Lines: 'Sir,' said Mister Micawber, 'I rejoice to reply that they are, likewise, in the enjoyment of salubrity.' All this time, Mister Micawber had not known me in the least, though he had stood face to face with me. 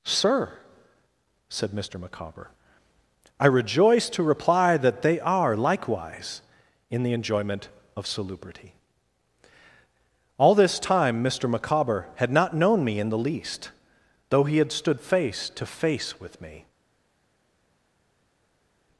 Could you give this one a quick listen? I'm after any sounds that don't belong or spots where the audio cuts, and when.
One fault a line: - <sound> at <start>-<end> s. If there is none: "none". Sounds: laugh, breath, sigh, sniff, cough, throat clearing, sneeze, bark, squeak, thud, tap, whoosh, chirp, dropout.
none